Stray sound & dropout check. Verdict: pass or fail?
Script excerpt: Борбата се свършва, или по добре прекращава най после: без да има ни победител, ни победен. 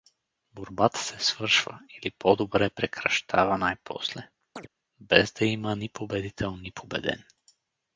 fail